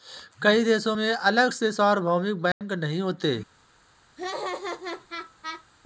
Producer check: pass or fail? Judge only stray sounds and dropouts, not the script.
fail